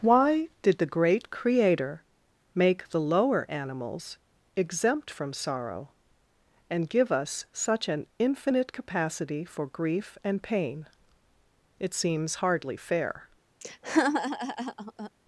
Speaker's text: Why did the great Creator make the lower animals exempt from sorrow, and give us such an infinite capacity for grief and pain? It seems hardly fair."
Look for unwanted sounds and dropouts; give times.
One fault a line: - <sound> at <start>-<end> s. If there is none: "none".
- laugh at 13.6-15.1 s